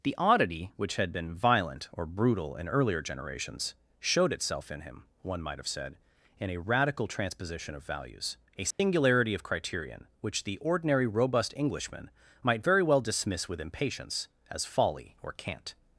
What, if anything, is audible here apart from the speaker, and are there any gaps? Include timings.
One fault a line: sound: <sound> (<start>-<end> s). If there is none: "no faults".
sound: dropout (8.7-8.8 s)